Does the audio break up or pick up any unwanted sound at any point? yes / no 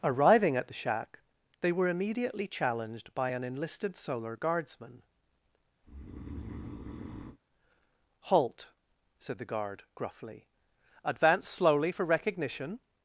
yes